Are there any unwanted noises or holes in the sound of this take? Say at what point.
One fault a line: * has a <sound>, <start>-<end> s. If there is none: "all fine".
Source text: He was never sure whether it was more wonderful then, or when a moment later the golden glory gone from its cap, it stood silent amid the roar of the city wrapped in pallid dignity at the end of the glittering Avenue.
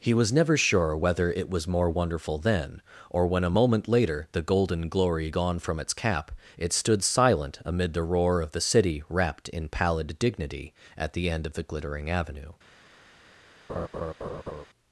* has a laugh, 13.7-14.7 s